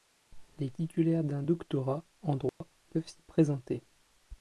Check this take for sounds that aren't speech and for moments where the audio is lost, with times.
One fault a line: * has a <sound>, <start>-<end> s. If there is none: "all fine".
* has a dropout, 2.5-2.6 s